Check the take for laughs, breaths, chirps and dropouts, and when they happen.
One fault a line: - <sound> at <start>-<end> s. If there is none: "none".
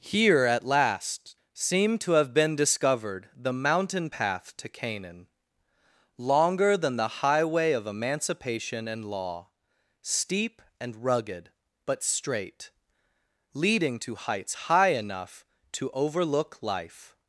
none